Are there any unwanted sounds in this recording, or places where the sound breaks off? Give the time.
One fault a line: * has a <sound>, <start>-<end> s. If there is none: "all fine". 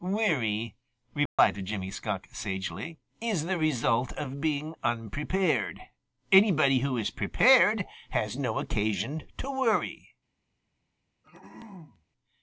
* has a dropout, 1.3-1.4 s
* has a throat clearing, 11.2-12.1 s